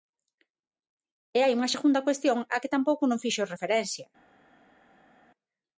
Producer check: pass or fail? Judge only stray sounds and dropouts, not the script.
pass